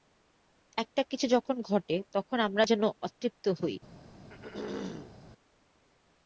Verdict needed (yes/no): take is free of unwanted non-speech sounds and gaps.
no